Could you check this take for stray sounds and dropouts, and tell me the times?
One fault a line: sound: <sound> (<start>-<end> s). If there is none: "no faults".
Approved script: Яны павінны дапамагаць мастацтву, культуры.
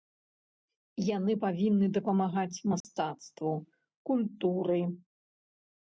sound: dropout (2.8-2.8 s)